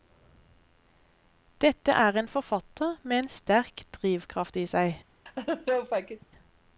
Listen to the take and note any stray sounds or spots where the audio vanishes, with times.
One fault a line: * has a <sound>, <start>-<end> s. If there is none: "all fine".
* has a laugh, 5.3-6.3 s